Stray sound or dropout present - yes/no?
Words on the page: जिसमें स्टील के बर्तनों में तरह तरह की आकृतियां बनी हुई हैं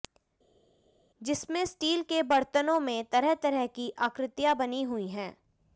no